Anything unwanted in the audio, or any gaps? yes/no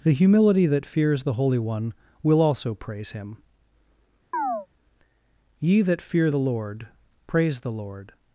yes